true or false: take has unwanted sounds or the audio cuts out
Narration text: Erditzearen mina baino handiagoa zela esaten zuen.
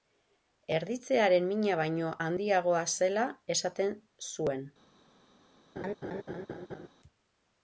true